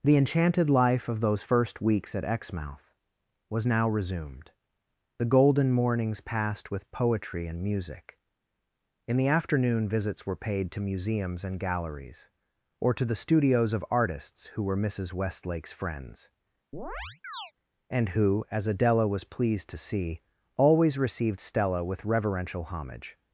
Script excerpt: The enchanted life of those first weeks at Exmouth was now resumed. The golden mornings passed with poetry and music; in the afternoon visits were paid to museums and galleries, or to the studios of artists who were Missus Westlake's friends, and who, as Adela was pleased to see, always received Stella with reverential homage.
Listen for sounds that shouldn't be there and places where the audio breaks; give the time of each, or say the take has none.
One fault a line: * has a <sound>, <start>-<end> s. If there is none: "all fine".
* has a chirp, 16.7-17.5 s